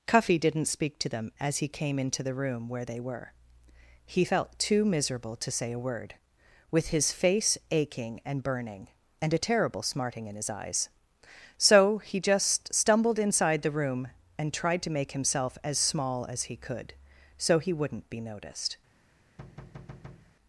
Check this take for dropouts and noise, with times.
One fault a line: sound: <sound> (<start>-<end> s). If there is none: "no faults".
sound: thud (19.4-20.3 s)